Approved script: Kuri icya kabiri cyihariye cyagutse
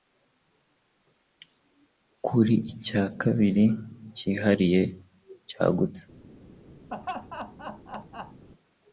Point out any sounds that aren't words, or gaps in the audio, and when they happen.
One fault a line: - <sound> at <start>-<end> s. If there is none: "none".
- laugh at 6.9-8.5 s